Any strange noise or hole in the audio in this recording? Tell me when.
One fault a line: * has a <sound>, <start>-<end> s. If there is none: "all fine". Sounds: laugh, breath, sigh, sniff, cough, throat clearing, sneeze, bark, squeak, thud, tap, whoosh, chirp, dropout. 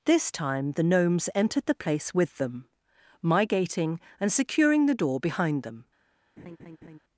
* has a laugh, 6.4-7.0 s